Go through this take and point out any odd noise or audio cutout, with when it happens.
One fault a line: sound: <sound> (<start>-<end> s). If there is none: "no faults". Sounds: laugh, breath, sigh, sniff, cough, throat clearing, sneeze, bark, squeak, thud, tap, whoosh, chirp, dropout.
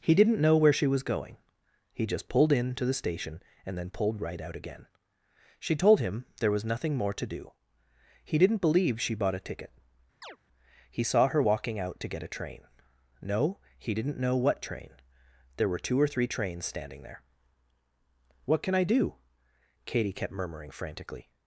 sound: chirp (10.2-10.4 s)